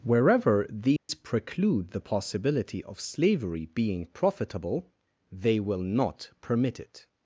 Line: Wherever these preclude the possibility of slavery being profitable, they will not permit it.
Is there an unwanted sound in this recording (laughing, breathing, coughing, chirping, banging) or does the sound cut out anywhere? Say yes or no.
yes